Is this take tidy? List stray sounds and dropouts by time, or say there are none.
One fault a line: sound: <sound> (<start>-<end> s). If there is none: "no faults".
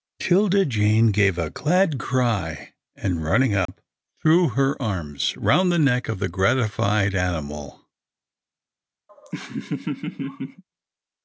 sound: dropout (3.7-3.7 s)
sound: laugh (9.1-10.6 s)